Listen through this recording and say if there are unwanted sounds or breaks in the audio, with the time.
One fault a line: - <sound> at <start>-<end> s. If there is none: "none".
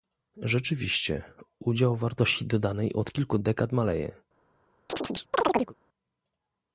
- chirp at 4.9-5.7 s